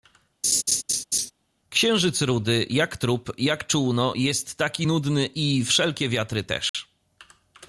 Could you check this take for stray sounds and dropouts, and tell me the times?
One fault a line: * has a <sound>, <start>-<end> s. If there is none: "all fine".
* has a laugh, 0.4-1.3 s
* has a dropout, 6.7-6.7 s